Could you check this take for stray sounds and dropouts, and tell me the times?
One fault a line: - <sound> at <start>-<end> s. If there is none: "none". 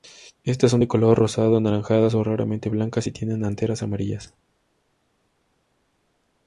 none